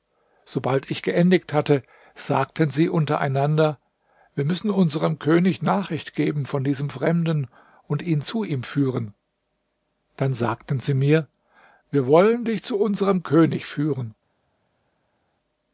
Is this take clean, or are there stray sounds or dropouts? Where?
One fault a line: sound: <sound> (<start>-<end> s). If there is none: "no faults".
no faults